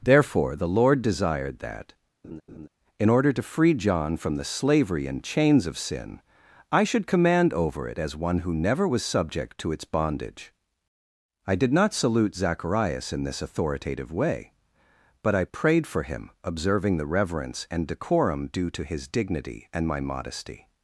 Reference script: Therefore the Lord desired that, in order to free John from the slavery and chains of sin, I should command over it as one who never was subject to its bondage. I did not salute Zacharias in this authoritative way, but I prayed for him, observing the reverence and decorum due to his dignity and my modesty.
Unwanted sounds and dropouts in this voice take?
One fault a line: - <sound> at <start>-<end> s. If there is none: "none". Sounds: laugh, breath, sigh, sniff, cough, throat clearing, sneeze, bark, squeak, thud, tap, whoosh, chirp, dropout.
- laugh at 2.2-2.7 s